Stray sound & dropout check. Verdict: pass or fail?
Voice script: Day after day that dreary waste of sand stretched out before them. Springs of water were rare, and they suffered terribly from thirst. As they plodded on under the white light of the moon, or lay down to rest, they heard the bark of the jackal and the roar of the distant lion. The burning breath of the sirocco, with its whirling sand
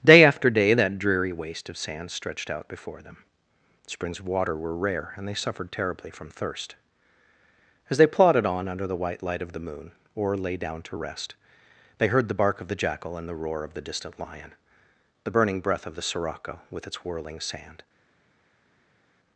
pass